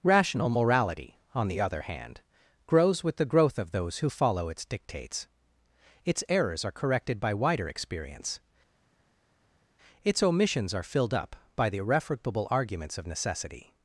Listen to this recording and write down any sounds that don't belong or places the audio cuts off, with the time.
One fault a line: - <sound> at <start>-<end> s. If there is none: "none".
none